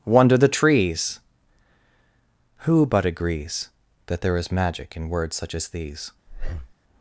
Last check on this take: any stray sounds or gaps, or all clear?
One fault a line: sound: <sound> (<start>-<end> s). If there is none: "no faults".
sound: breath (6.3-6.7 s)